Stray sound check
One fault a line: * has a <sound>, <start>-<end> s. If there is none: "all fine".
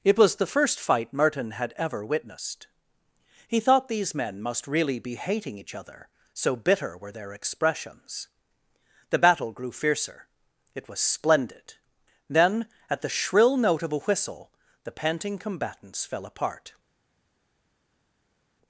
all fine